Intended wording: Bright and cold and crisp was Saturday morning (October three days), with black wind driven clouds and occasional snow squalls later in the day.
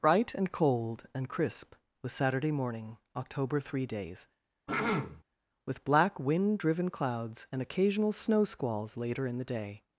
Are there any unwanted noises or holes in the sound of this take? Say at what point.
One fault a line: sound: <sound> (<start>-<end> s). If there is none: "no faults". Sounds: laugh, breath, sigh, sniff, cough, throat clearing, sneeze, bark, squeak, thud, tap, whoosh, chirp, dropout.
sound: throat clearing (4.7-5.2 s)